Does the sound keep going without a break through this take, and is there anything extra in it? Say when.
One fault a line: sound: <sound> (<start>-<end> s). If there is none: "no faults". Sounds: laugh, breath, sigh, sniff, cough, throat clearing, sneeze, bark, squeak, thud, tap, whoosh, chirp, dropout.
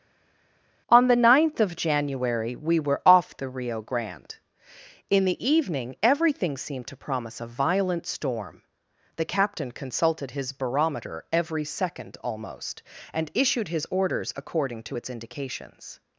no faults